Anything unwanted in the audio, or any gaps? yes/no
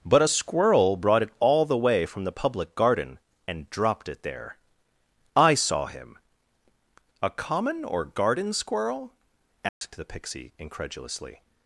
yes